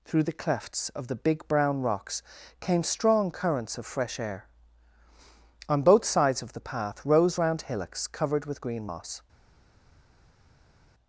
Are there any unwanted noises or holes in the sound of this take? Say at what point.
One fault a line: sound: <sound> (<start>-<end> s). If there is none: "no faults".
no faults